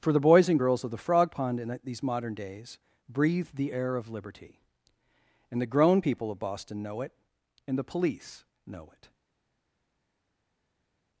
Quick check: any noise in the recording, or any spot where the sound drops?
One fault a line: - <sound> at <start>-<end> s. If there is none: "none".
none